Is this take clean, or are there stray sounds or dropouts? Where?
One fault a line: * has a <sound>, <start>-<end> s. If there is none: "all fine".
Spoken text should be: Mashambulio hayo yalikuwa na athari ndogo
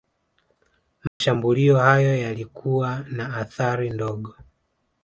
* has a dropout, 1.1-1.2 s